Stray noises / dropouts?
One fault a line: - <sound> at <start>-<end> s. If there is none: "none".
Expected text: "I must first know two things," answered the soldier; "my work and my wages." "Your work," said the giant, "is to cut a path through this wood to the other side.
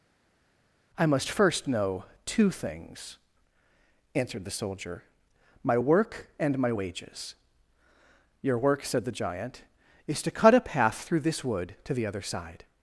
none